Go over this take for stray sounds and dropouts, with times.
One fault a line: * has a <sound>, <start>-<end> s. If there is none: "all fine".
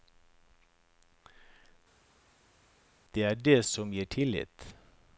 all fine